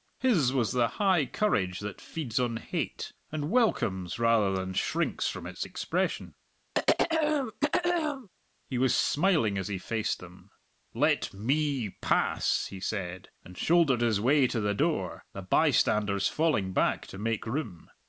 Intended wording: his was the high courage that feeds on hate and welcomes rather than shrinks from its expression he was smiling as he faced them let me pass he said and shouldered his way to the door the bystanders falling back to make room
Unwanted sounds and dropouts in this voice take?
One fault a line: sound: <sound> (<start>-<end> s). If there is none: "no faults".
sound: throat clearing (6.7-8.3 s)